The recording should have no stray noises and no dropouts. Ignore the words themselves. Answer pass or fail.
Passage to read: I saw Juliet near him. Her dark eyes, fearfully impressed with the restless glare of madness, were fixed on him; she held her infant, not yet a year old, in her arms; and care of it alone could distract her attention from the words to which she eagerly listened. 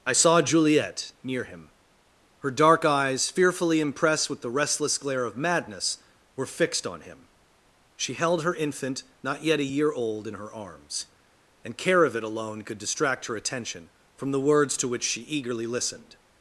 pass